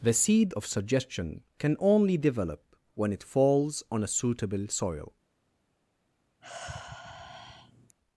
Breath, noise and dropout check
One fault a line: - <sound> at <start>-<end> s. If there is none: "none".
- sigh at 6.4-8.0 s